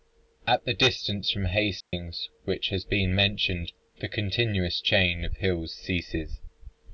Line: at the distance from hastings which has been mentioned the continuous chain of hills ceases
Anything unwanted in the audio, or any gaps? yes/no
yes